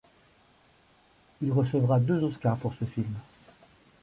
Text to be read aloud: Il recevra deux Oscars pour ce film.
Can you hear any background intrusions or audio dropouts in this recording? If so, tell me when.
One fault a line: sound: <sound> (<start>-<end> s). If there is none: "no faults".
no faults